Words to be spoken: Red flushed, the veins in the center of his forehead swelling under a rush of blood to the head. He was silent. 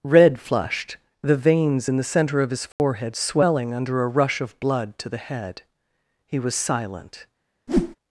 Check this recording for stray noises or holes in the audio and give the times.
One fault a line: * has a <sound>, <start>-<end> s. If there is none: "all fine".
* has a dropout, 2.7-2.8 s
* has a whoosh, 7.7-8.0 s